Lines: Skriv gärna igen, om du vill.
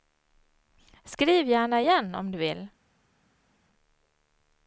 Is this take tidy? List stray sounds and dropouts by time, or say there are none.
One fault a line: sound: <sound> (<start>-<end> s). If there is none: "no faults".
no faults